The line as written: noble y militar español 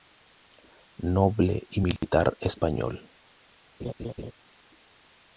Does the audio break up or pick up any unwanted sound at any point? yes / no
yes